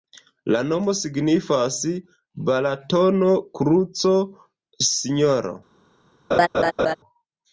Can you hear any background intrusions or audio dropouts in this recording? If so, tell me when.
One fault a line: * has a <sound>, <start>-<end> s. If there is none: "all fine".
* has a laugh, 6.3-7.0 s